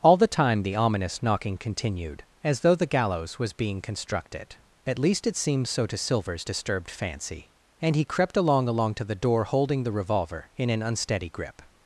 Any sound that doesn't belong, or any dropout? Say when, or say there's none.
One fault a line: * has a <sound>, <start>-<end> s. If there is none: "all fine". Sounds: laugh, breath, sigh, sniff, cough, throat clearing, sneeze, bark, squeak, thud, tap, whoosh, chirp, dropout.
all fine